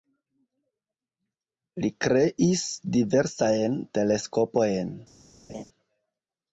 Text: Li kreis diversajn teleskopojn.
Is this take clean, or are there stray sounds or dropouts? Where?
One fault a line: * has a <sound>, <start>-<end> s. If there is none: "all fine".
* has a laugh, 5.5-5.6 s